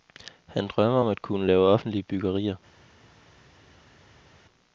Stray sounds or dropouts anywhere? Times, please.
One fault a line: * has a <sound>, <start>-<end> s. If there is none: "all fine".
all fine